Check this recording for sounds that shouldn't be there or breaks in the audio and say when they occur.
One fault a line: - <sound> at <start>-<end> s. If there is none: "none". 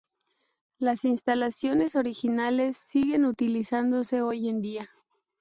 none